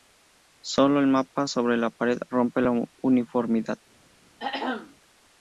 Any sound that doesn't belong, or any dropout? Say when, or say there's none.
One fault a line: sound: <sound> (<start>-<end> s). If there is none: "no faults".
sound: throat clearing (4.4-5.0 s)